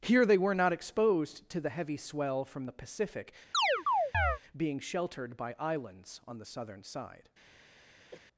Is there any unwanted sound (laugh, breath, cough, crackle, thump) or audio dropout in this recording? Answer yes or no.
yes